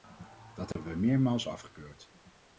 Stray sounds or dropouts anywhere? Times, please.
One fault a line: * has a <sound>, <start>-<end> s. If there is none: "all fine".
* has a dropout, 0.7-0.8 s